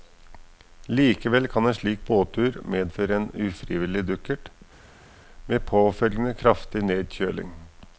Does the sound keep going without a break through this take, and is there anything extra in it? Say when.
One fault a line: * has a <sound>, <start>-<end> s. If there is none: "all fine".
all fine